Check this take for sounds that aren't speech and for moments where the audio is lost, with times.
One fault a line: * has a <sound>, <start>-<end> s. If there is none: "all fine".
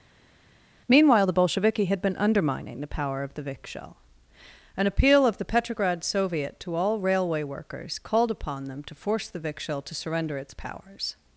all fine